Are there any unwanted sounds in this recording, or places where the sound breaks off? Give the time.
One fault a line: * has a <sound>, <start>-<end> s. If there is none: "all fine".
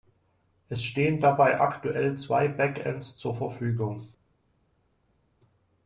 all fine